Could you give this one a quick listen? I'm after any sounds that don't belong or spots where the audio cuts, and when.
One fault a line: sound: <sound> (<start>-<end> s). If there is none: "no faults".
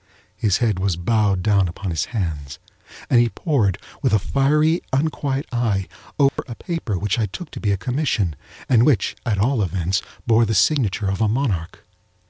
sound: dropout (6.3-6.4 s)